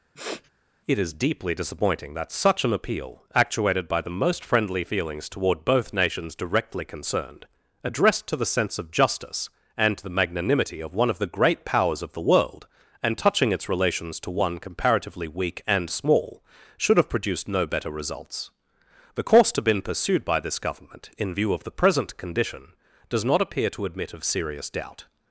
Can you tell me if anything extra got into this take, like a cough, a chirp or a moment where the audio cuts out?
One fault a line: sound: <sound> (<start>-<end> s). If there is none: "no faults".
sound: sniff (0.2-0.5 s)